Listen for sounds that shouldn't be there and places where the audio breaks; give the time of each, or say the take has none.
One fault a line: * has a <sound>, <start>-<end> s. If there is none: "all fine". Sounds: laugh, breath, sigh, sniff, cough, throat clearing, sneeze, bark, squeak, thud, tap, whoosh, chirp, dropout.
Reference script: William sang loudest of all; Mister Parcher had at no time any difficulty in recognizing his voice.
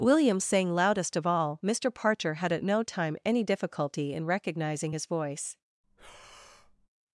* has a breath, 5.8-6.9 s